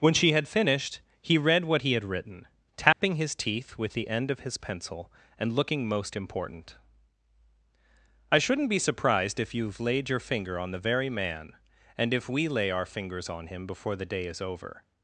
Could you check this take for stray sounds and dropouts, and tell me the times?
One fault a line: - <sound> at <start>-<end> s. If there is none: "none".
- dropout at 2.9-3.0 s